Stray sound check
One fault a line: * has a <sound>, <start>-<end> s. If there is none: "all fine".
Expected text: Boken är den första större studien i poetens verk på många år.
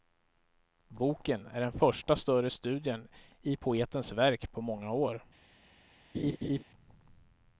* has a laugh, 6.1-6.6 s